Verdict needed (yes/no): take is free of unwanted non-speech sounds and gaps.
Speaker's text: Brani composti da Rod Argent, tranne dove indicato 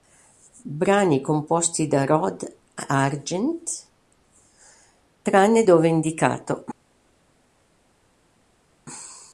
yes